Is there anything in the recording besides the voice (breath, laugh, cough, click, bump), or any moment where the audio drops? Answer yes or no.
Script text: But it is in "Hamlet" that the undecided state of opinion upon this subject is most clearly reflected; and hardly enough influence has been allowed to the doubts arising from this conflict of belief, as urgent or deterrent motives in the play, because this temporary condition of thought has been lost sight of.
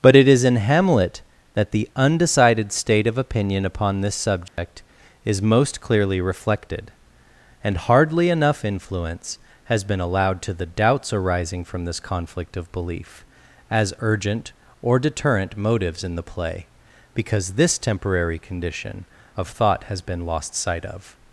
yes